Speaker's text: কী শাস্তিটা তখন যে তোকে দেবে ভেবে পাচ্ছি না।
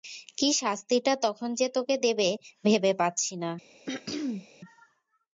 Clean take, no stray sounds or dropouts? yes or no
no